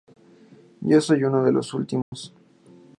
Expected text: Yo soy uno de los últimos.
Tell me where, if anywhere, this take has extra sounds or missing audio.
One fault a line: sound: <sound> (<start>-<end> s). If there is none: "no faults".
sound: dropout (2.0-2.1 s)